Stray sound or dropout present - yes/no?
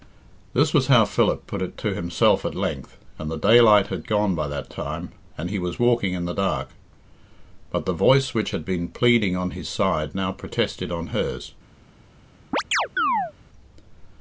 yes